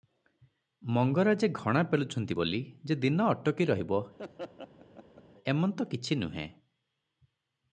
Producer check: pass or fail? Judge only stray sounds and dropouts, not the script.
fail